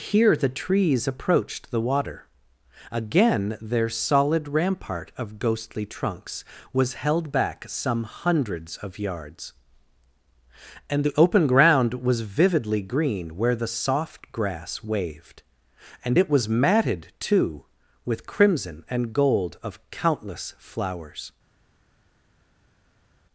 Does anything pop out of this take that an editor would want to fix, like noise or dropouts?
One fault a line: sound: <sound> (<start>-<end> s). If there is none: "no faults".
no faults